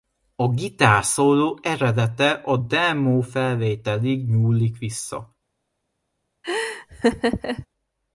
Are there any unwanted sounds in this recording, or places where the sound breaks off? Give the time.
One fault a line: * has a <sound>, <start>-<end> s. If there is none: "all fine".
* has a laugh, 6.4-7.7 s